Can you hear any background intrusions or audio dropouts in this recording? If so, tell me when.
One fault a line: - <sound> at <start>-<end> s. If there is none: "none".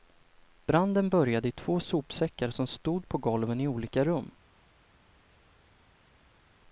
none